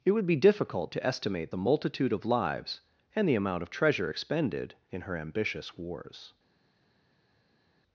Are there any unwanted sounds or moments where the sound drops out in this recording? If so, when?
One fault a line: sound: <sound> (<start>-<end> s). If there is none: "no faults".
no faults